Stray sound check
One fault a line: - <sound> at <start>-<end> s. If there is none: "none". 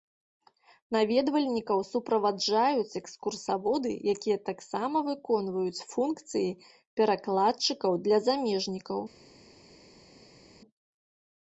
none